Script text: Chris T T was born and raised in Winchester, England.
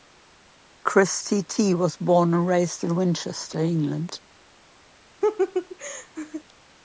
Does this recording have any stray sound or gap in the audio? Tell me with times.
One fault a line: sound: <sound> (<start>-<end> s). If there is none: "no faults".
sound: laugh (5.2-6.4 s)